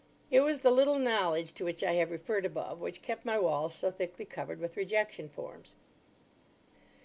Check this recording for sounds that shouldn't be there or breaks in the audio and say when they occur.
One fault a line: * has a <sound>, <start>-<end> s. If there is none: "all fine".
all fine